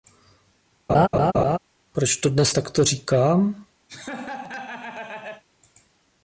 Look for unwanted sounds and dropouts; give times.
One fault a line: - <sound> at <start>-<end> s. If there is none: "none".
- laugh at 0.9-1.6 s
- laugh at 3.9-5.4 s